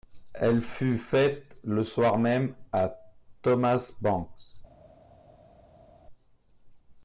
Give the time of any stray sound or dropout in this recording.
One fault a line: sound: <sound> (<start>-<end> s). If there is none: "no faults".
no faults